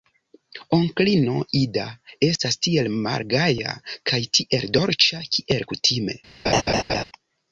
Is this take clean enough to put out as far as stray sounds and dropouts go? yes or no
no